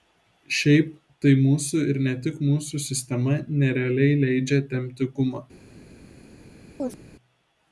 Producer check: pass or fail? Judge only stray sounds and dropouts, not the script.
fail